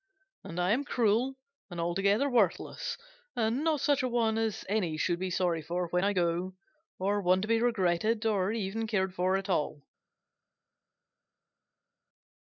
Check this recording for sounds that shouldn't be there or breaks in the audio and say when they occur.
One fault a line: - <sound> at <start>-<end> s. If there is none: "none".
none